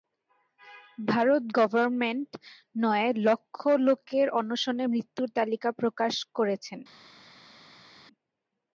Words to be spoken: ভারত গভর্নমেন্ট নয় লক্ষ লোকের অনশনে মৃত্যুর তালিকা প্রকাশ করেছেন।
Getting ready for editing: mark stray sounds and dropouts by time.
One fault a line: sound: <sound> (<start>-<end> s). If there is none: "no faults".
no faults